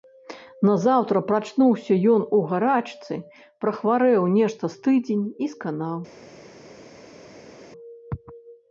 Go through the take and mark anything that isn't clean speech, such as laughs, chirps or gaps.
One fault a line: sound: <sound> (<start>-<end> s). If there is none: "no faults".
no faults